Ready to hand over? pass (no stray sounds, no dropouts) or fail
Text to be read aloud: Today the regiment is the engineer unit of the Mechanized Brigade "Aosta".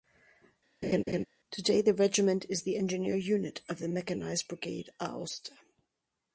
fail